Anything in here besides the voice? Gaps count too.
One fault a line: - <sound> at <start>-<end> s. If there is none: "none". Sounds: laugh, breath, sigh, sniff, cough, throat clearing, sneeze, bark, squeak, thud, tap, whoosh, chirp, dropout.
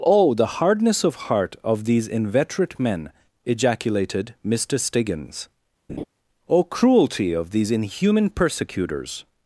- laugh at 5.9-6.0 s